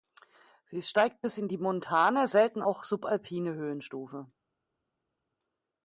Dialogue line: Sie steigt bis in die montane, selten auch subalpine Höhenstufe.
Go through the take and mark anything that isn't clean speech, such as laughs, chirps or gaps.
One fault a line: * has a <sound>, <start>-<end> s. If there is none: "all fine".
all fine